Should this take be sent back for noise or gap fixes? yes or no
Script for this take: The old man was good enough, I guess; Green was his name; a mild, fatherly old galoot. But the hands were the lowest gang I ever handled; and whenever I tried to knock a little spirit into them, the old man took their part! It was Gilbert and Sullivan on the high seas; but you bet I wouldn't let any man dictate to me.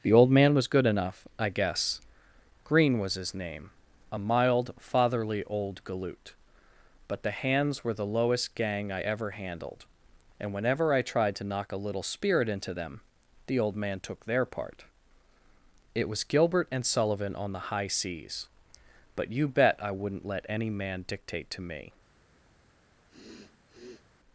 yes